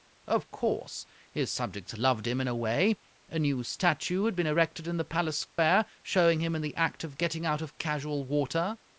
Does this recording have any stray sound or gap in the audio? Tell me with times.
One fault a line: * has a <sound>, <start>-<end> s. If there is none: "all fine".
* has a dropout, 5.5-5.6 s